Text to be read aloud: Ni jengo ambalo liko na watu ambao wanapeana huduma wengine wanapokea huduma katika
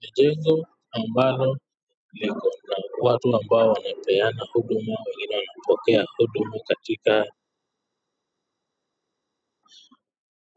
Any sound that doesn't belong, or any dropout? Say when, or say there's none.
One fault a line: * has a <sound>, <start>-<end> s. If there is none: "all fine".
all fine